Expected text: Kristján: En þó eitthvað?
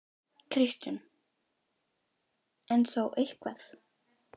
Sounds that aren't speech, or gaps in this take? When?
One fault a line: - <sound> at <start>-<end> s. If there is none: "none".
none